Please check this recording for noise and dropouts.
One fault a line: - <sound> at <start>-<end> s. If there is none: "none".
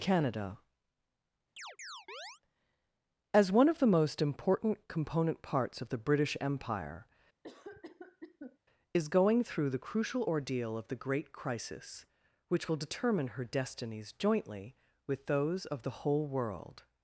- chirp at 1.6-2.4 s
- cough at 7.4-8.6 s